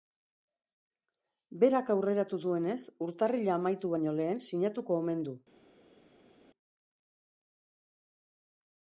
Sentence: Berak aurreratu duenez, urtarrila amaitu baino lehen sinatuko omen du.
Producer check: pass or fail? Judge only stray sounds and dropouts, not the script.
pass